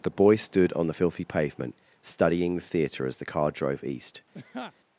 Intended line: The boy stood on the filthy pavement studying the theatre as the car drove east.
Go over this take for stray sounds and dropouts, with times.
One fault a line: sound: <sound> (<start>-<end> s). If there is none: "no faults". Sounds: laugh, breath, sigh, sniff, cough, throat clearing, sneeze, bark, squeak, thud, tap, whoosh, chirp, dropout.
sound: laugh (4.3-4.7 s)